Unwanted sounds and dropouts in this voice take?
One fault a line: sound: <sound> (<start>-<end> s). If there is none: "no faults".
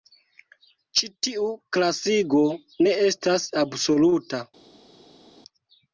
no faults